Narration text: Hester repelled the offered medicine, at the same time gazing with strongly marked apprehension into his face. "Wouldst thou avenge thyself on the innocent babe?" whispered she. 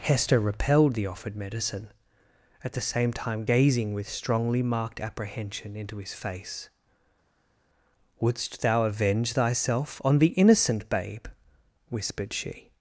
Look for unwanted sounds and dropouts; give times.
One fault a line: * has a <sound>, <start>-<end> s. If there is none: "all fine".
all fine